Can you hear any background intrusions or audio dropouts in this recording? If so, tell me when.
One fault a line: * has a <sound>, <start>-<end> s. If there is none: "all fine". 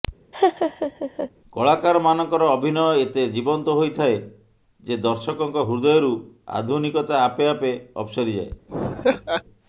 * has a laugh, 0.3-1.3 s
* has a laugh, 8.7-9.4 s